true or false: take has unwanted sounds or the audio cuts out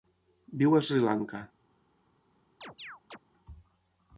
true